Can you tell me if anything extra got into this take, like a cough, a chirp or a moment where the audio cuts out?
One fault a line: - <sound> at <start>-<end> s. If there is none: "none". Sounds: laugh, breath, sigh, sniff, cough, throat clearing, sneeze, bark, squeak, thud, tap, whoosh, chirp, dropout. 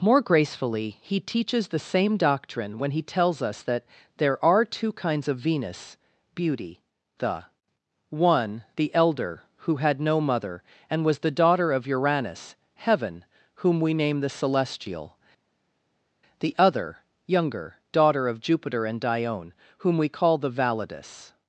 none